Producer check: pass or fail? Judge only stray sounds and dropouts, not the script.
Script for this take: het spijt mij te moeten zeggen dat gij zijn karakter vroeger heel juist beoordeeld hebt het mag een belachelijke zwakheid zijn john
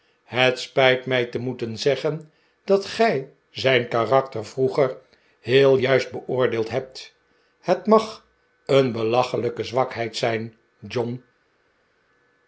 pass